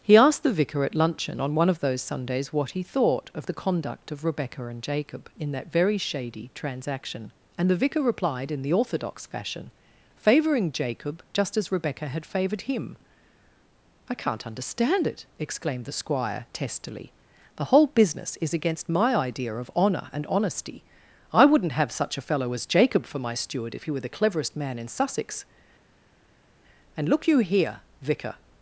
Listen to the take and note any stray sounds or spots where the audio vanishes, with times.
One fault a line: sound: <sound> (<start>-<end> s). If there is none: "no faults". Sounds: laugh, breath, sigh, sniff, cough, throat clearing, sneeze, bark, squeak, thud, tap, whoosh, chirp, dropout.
no faults